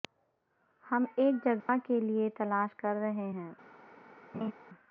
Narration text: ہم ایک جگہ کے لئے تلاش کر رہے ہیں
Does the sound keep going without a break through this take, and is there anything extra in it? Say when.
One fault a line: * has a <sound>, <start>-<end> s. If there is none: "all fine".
* has a dropout, 1.6-1.7 s
* has a laugh, 4.3-4.5 s